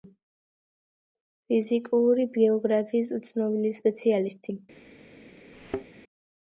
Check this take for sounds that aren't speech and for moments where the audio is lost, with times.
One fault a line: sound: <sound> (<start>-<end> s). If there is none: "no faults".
sound: thud (5.5-5.9 s)